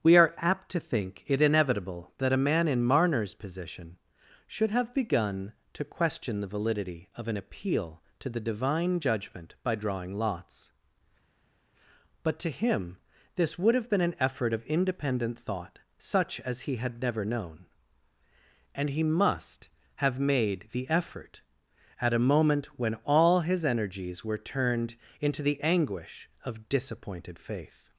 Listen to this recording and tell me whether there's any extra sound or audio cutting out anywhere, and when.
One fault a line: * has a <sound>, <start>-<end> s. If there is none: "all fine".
all fine